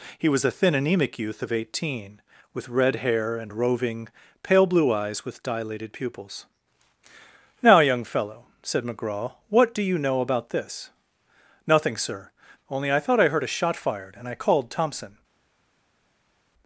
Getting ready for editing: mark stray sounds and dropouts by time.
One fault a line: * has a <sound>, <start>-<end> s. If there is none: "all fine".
all fine